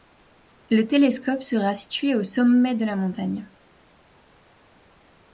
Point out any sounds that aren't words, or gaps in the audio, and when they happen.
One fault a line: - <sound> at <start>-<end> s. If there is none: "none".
none